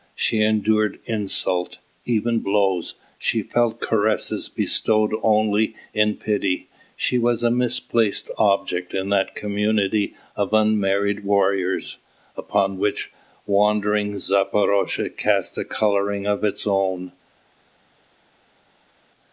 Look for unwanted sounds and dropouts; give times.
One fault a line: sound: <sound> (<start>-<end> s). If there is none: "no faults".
no faults